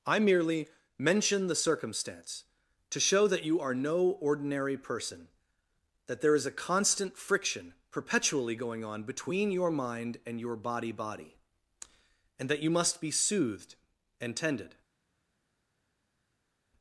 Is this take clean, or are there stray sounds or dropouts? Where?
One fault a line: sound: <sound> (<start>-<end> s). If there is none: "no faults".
no faults